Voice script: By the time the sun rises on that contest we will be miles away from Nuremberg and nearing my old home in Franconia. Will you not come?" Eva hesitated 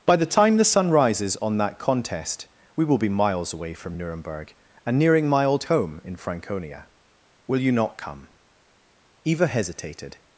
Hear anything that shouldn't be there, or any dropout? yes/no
no